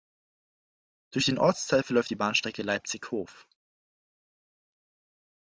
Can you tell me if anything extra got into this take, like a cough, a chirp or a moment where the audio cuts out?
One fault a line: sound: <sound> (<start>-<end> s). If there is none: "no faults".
no faults